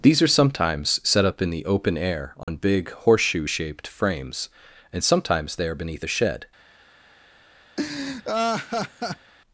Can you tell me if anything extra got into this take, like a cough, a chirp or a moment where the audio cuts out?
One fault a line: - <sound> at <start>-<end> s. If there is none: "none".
- dropout at 2.4-2.5 s
- laugh at 7.8-9.3 s